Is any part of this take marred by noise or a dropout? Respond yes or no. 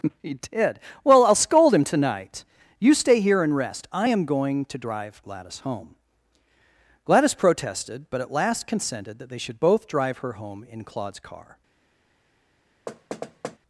yes